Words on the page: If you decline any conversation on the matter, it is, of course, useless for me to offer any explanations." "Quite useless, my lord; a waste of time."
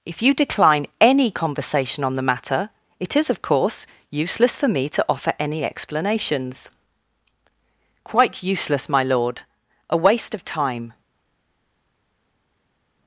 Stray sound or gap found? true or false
false